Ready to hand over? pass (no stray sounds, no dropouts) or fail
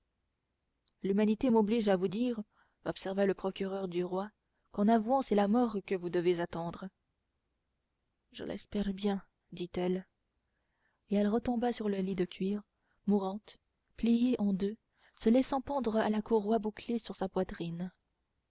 pass